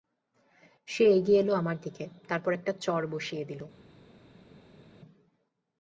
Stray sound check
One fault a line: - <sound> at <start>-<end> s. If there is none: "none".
none